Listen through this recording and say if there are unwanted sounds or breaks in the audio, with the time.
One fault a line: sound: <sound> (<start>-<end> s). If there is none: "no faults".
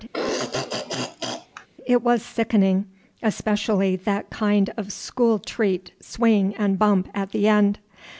sound: throat clearing (0.1-1.7 s)